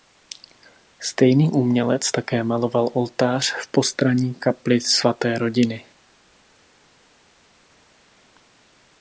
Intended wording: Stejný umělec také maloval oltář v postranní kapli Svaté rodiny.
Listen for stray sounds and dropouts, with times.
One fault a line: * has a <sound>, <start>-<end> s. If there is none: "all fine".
all fine